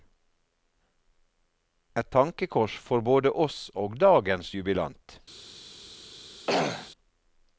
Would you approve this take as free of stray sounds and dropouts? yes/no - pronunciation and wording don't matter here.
no